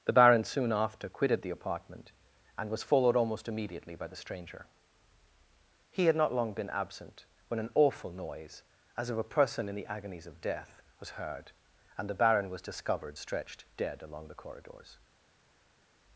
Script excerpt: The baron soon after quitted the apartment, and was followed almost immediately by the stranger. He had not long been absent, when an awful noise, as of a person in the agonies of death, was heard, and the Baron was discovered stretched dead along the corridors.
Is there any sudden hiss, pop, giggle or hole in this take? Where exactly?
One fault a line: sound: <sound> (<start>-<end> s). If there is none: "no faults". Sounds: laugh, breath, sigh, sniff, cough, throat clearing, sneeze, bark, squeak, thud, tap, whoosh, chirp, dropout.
no faults